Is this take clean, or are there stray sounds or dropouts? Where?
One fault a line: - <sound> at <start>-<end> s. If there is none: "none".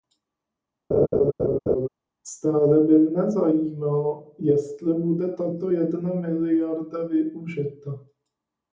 - laugh at 0.9-1.9 s